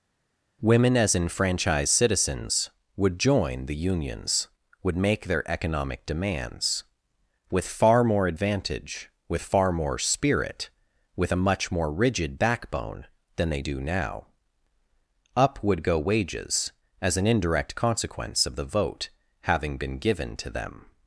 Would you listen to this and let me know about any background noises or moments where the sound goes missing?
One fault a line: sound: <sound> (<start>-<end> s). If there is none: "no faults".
no faults